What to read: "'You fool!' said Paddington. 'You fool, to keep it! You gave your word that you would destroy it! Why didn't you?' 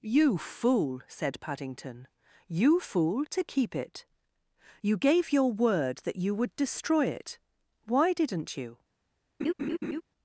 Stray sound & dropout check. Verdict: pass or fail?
fail